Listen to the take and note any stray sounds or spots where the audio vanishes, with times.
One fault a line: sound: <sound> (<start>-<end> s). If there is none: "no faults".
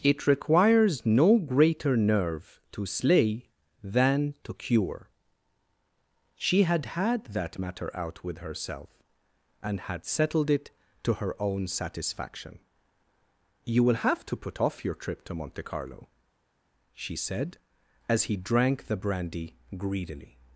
no faults